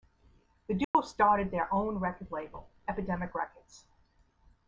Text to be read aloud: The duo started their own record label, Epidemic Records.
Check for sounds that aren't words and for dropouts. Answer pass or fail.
fail